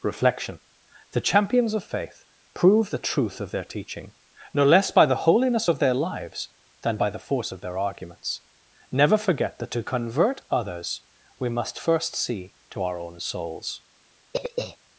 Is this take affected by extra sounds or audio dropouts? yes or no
yes